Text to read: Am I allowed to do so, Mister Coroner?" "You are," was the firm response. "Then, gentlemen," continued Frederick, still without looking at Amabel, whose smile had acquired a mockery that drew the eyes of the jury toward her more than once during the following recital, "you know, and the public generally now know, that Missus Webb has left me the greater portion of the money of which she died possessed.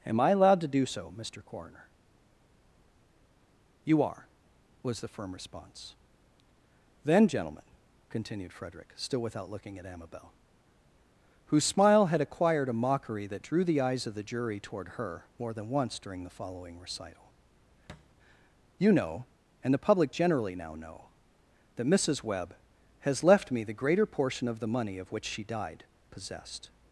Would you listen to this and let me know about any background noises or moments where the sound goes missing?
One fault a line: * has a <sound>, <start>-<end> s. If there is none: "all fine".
* has a thud, 17.9-18.1 s